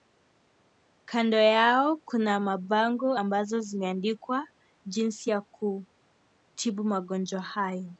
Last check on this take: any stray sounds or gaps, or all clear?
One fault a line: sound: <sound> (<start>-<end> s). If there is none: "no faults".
no faults